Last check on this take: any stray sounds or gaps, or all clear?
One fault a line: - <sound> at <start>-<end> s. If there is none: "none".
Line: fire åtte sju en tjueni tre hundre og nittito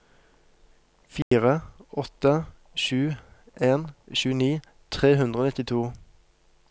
- dropout at 1.2-1.3 s